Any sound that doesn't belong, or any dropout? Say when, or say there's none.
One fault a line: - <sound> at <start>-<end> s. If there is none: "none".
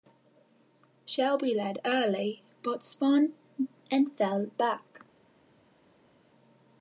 none